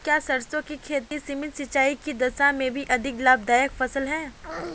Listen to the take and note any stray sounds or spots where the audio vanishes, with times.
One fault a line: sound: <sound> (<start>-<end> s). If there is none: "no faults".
sound: dropout (1.1-1.1 s)